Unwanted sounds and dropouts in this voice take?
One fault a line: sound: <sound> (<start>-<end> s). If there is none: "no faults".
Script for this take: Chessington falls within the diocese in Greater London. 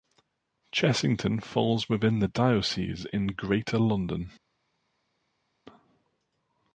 no faults